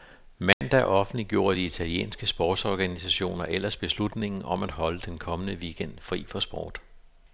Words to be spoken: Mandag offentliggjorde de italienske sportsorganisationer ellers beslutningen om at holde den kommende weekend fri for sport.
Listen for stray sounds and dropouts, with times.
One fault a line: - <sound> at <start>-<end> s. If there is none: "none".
- dropout at 0.5-0.6 s